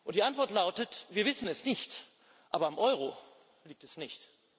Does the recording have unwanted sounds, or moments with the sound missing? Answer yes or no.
no